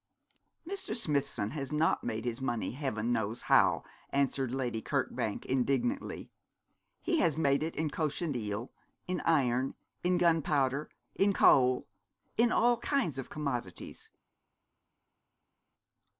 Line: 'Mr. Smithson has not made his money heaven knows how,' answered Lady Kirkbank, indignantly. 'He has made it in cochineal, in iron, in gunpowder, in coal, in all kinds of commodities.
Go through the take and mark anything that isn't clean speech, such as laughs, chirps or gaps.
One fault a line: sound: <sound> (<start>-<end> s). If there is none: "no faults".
no faults